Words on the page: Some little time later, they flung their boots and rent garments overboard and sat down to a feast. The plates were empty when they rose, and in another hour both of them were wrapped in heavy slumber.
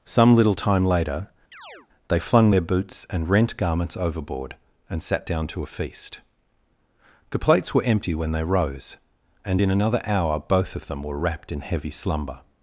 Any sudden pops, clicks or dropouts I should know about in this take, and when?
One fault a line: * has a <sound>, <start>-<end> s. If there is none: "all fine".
* has a chirp, 1.5-1.9 s